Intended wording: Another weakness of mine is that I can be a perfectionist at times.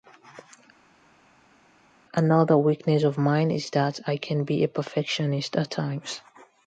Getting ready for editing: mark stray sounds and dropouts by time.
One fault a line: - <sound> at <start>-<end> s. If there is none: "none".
none